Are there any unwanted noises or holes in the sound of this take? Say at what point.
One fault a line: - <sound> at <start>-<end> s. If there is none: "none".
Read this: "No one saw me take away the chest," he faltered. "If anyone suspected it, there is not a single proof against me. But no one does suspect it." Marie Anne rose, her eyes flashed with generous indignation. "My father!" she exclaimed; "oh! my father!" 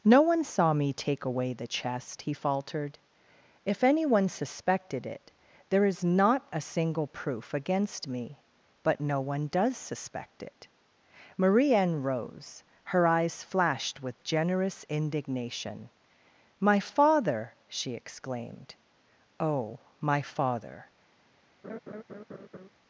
- laugh at 21.6-22.7 s